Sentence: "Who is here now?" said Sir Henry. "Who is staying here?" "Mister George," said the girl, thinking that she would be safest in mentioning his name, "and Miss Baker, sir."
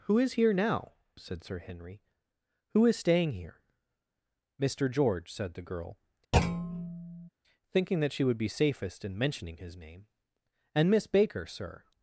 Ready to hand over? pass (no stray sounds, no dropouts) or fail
fail